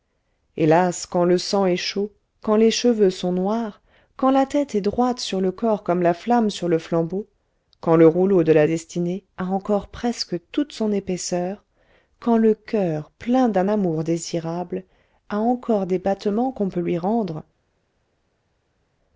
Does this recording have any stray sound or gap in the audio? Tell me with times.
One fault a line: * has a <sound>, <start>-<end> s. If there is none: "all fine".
all fine